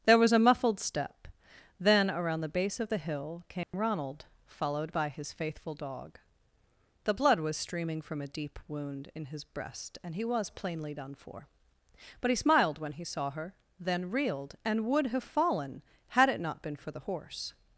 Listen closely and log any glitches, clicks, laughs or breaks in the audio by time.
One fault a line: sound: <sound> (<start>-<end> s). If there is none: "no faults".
sound: dropout (3.6-3.7 s)